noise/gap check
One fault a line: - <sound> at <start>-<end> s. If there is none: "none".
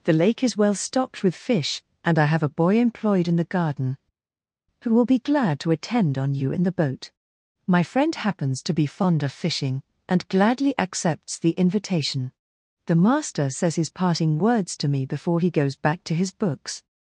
none